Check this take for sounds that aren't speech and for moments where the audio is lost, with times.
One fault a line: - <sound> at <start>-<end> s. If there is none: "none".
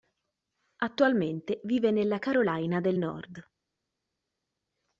none